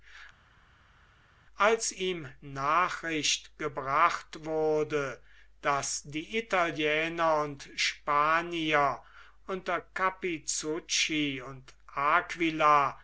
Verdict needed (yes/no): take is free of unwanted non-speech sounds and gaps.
yes